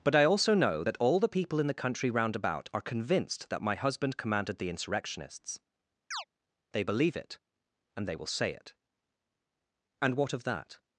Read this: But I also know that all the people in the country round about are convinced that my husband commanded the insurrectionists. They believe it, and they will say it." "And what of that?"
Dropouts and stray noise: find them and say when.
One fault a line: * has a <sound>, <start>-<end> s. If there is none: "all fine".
* has a chirp, 6.1-6.2 s